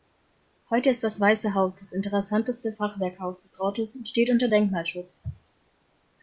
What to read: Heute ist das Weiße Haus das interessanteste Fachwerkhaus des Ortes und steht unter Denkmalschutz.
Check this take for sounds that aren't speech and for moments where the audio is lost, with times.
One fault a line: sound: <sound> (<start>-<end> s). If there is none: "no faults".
no faults